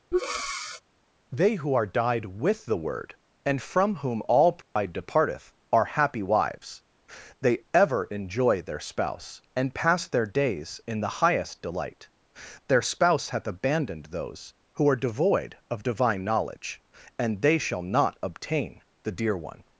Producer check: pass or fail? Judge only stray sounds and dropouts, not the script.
fail